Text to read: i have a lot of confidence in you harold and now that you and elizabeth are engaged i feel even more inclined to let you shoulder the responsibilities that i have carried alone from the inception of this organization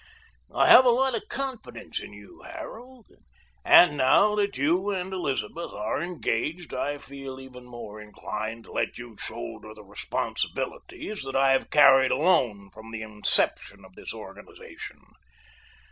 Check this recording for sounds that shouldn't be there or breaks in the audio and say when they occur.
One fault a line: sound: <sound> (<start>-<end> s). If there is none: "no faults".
no faults